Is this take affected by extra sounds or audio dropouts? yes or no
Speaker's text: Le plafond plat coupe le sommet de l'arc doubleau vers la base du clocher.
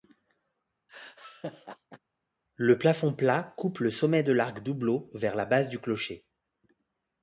yes